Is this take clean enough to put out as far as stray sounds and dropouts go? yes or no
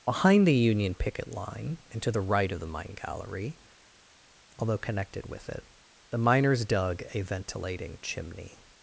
yes